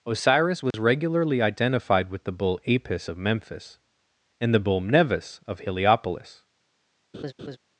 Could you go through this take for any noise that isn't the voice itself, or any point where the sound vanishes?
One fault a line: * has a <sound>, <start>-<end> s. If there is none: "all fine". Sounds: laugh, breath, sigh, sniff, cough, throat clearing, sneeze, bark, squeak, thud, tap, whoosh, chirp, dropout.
* has a dropout, 0.7-0.7 s
* has a laugh, 7.1-7.6 s